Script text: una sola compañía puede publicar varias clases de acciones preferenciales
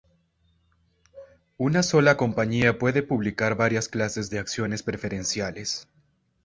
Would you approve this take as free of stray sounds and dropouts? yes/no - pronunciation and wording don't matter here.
yes